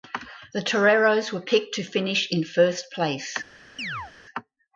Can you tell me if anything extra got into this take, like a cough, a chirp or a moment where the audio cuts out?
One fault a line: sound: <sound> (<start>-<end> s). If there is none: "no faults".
sound: chirp (3.8-4.1 s)